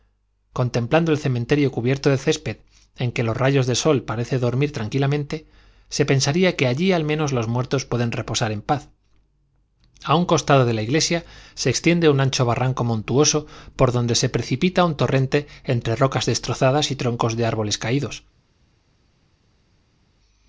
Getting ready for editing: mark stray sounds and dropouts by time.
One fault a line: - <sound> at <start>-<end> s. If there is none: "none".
none